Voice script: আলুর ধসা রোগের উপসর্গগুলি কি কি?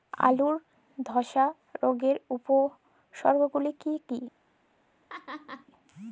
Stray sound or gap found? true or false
true